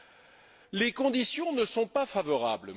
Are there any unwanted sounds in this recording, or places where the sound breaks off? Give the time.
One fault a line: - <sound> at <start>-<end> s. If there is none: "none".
none